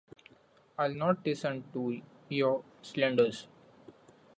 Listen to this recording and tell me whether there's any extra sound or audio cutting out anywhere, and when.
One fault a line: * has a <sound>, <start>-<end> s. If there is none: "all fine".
all fine